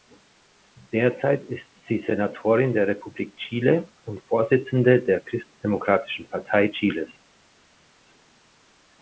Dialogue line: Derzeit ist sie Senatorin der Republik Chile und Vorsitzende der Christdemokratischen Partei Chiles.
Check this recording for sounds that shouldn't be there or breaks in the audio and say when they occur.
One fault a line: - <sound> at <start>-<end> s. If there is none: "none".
none